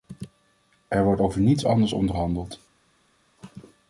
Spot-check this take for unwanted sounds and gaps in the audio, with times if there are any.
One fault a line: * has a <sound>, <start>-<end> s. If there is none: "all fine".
all fine